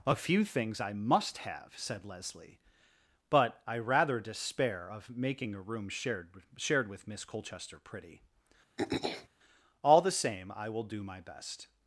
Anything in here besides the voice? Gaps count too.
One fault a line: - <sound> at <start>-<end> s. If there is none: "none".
- throat clearing at 8.8-9.3 s